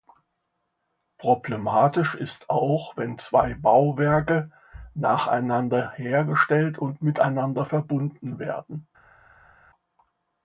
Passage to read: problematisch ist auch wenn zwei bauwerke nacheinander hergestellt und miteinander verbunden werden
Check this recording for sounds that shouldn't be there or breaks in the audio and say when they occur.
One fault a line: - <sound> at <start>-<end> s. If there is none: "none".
none